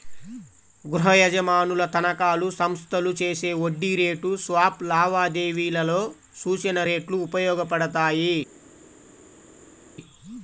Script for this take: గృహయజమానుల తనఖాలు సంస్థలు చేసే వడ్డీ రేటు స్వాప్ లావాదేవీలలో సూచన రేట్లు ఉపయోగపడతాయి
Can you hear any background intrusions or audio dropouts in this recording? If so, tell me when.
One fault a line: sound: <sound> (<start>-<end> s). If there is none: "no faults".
no faults